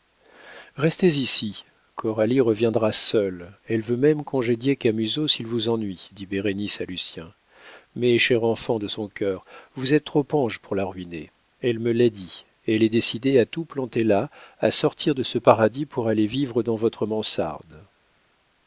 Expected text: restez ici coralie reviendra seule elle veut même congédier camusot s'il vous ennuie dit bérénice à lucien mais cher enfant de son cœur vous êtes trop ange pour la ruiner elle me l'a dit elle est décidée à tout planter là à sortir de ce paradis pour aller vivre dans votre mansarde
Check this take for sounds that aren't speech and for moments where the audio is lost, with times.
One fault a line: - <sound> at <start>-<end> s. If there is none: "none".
none